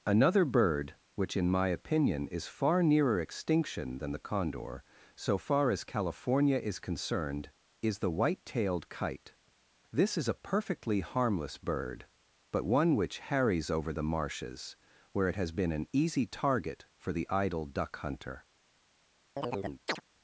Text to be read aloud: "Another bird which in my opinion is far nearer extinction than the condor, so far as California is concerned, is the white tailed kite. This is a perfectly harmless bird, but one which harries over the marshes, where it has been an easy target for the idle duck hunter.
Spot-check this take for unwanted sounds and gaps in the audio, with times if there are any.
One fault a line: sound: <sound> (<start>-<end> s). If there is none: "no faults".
sound: chirp (19.4-20.0 s)